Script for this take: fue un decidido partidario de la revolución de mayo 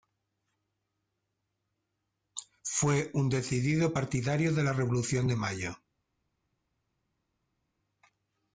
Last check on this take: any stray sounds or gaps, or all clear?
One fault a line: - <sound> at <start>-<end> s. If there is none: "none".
none